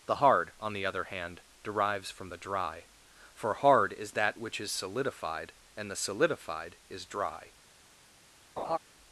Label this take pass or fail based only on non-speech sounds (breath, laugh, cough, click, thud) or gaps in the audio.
fail